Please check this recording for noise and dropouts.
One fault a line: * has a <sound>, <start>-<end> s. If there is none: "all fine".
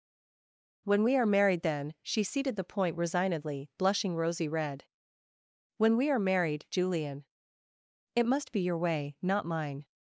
all fine